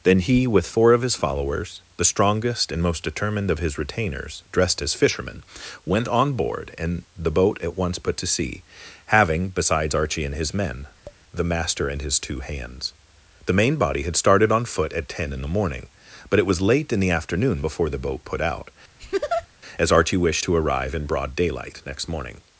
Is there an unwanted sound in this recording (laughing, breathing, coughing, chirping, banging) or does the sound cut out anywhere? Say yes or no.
yes